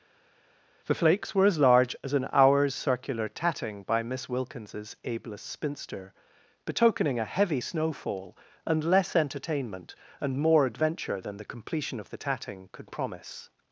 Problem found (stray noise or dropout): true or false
false